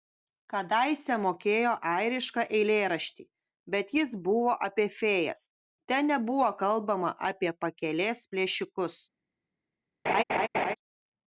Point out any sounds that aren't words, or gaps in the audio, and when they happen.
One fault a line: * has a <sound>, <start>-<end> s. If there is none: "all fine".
* has a laugh, 10.1-10.8 s